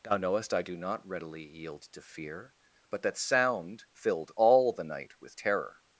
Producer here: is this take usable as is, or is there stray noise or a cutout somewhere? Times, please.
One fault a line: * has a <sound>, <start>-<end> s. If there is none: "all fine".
all fine